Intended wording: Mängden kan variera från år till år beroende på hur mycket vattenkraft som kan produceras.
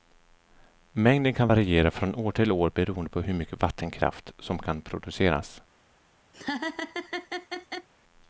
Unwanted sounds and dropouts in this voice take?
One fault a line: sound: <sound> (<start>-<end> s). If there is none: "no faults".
sound: laugh (6.3-7.9 s)